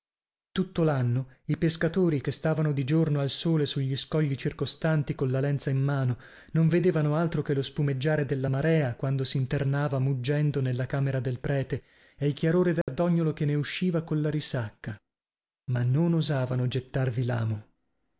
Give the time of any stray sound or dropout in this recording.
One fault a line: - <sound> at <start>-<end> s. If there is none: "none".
- dropout at 12.8-12.9 s